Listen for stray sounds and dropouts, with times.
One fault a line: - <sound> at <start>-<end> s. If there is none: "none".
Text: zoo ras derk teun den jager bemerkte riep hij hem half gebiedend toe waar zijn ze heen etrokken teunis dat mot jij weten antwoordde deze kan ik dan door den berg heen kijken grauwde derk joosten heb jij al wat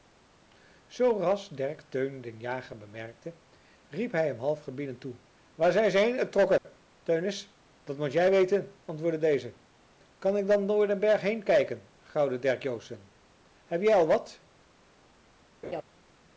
- dropout at 6.6-6.6 s
- laugh at 15.6-15.8 s